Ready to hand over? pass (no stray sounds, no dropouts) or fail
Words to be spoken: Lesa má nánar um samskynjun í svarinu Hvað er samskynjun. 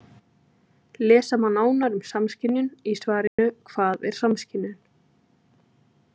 fail